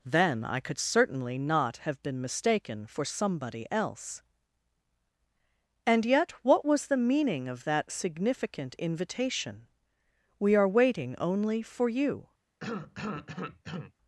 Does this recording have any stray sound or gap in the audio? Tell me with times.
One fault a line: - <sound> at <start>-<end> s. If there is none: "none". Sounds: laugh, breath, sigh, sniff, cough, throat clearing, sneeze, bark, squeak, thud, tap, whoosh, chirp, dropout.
- cough at 12.6-13.9 s